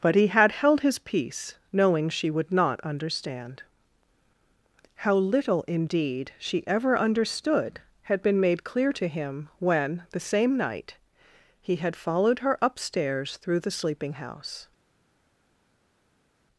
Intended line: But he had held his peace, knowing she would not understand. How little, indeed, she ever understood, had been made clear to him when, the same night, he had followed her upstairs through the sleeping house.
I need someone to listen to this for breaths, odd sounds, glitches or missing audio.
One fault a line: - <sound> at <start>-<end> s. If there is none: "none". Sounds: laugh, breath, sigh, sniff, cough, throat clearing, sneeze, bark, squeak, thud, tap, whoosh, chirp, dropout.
none